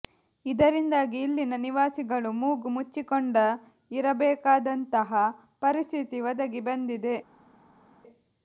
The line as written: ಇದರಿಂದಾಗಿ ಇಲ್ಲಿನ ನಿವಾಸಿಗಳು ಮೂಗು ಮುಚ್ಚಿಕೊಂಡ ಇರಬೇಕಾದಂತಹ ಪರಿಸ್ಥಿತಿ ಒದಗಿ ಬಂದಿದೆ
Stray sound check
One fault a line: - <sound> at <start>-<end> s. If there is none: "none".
none